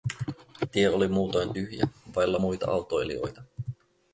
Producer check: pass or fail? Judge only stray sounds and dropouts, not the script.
pass